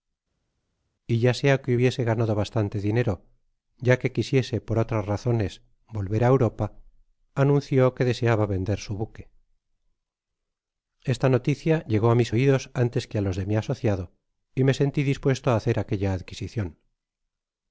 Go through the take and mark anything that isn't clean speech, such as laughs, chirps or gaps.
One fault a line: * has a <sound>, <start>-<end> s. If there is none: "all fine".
all fine